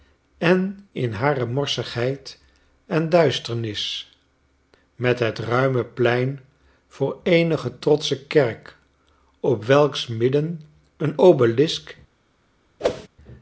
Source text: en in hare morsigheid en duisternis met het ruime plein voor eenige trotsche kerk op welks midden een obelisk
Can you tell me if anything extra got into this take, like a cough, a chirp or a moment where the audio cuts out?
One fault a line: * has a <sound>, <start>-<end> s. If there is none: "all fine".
* has a whoosh, 12.8-13.1 s